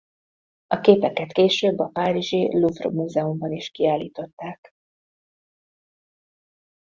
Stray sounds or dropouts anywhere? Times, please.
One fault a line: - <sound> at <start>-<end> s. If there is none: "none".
none